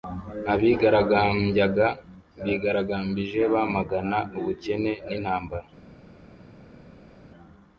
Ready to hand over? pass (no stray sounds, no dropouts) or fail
pass